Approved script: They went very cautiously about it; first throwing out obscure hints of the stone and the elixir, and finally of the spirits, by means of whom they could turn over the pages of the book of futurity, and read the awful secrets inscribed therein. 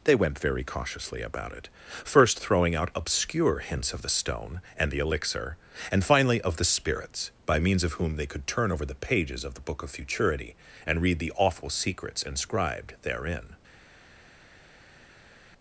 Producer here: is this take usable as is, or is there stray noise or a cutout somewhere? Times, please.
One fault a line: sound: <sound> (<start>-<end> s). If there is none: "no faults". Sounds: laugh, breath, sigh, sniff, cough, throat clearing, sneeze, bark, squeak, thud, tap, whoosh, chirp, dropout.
no faults